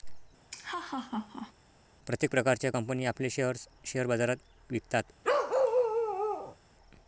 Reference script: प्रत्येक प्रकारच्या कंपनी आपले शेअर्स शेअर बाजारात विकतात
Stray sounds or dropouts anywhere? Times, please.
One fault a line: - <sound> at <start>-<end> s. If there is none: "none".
- laugh at 0.5-1.5 s
- bark at 5.2-6.6 s